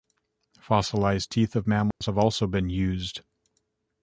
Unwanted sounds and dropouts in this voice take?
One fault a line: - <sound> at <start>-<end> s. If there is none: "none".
- dropout at 1.9-2.0 s